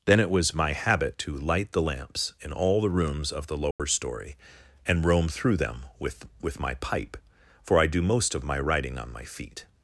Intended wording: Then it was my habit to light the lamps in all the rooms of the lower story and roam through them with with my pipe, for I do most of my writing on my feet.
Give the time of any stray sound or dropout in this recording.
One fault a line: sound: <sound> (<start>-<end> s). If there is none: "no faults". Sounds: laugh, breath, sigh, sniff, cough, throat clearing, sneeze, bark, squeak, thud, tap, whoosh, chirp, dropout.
sound: dropout (3.7-3.8 s)